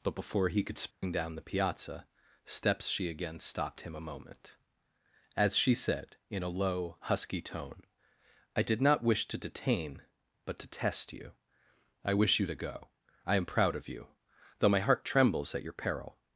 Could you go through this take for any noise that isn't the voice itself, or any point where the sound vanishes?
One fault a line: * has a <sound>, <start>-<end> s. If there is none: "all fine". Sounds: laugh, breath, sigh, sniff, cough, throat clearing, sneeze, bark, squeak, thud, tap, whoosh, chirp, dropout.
* has a dropout, 0.9-1.0 s